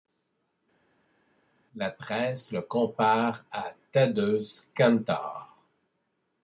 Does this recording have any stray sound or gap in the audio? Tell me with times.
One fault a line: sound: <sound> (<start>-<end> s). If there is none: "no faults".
no faults